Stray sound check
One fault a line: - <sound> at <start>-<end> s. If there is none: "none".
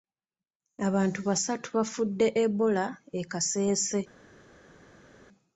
none